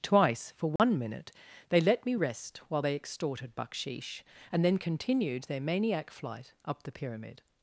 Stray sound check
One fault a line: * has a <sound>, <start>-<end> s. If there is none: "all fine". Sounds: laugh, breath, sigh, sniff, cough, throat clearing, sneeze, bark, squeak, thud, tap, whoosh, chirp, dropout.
* has a dropout, 0.8-0.8 s